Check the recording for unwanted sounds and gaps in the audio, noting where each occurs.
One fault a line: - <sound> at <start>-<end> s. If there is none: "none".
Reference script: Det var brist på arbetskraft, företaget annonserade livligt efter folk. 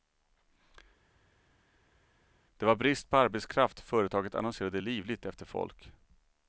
none